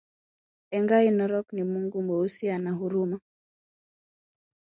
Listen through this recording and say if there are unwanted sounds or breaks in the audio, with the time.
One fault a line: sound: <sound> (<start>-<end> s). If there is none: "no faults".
no faults